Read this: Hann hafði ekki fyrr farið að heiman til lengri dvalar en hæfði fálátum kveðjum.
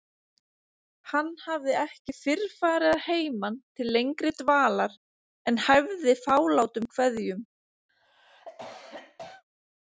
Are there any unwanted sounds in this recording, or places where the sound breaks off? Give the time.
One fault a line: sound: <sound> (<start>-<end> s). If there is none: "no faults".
sound: cough (7.9-9.4 s)